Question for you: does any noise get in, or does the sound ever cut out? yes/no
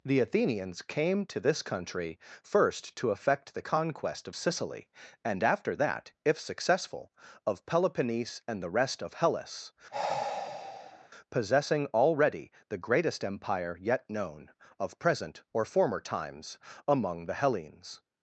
yes